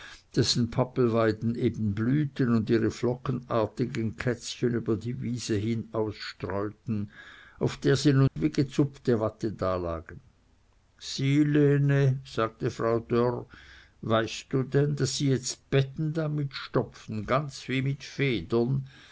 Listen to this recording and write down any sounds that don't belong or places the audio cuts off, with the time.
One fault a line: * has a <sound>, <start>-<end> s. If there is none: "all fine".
* has a dropout, 8.3-8.4 s